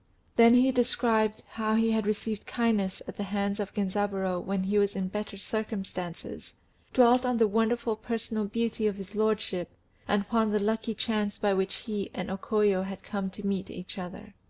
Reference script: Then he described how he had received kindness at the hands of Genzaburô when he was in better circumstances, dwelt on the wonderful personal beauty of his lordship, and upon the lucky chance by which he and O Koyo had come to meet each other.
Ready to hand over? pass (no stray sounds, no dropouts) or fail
pass